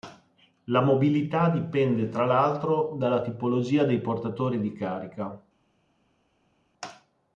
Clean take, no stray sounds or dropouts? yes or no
yes